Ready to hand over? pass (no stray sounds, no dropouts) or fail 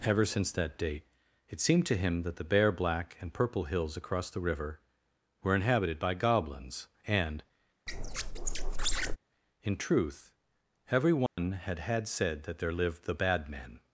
fail